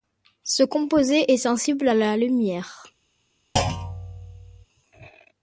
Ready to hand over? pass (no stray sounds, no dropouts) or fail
fail